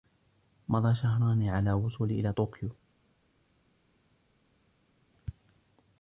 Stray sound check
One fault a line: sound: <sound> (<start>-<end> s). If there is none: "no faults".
no faults